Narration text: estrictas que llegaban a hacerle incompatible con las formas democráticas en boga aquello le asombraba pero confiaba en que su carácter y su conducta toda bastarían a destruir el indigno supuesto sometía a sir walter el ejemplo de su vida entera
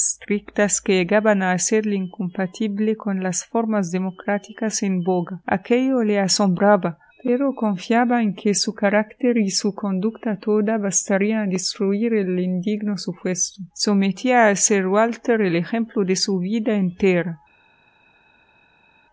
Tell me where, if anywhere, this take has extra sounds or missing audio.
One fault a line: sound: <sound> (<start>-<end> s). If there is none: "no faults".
no faults